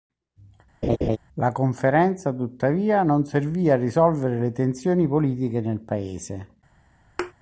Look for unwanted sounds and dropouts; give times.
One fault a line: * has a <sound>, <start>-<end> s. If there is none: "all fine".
* has a laugh, 0.8-1.2 s
* has a thud, 7.2-7.3 s